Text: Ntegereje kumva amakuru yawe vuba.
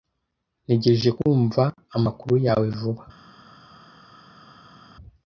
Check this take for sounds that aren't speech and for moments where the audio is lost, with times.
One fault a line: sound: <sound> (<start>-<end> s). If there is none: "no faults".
no faults